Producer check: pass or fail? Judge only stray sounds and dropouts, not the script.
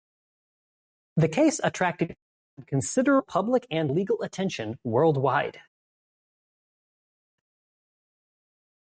pass